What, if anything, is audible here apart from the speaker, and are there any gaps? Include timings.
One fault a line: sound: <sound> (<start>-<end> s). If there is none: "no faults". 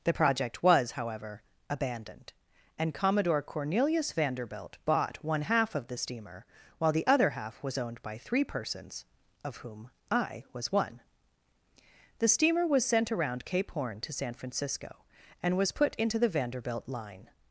no faults